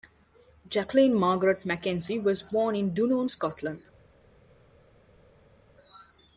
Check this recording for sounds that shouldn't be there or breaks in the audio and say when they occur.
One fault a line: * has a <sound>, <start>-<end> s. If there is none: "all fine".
all fine